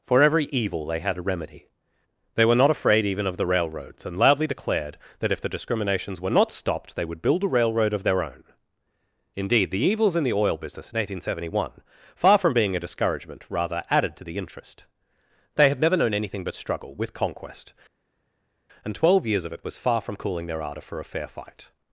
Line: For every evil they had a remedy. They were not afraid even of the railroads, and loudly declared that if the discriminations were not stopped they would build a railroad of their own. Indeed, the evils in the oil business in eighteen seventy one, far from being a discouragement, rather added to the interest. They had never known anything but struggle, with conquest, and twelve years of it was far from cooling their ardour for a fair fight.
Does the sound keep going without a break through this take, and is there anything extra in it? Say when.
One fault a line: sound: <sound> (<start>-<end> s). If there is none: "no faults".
no faults